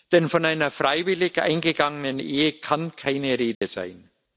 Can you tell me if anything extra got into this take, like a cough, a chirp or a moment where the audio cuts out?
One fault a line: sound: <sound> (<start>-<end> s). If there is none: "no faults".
sound: dropout (3.5-3.6 s)